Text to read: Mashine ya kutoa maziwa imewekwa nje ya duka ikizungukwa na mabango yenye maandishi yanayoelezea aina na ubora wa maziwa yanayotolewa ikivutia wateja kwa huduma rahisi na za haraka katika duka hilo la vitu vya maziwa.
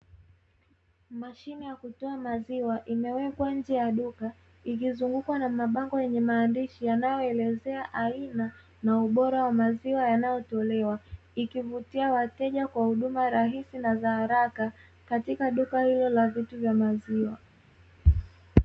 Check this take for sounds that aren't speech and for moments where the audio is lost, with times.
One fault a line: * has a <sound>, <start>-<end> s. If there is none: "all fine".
all fine